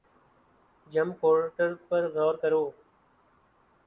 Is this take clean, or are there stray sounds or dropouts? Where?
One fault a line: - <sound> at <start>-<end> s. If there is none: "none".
none